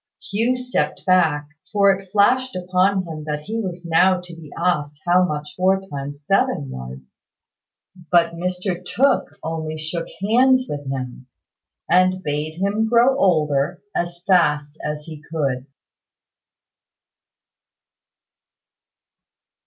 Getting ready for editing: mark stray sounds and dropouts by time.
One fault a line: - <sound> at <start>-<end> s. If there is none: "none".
none